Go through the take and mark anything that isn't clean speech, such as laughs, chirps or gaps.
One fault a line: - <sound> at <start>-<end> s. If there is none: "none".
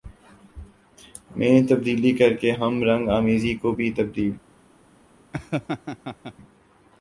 - laugh at 5.3-6.3 s